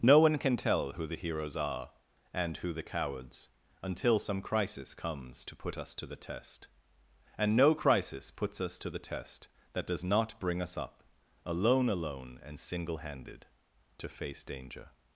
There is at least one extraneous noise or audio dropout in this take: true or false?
false